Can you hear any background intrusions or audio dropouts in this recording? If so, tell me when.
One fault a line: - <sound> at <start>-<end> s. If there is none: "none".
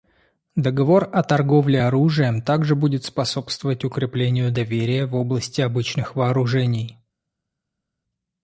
none